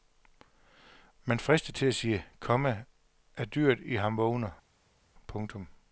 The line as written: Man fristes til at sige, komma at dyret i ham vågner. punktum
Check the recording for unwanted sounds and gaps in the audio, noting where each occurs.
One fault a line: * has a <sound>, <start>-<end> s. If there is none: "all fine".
all fine